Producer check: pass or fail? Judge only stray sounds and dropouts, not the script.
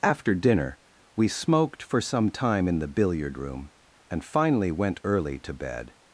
pass